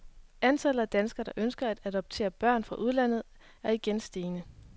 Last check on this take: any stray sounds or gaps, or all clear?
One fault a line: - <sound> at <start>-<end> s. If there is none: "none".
none